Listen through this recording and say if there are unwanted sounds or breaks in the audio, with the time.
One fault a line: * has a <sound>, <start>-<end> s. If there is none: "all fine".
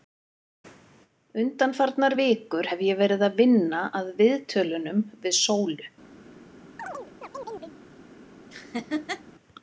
* has a chirp, 6.8-7.8 s
* has a laugh, 8.5-9.2 s